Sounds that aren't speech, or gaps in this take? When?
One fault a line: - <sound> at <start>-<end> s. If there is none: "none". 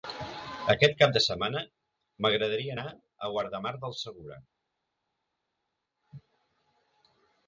none